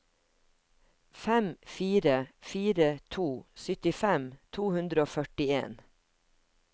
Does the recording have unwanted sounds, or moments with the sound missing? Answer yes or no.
no